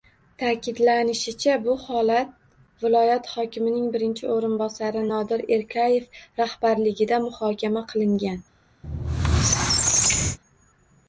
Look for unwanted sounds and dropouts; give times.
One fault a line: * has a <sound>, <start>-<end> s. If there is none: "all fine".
* has a squeak, 8.8-10.4 s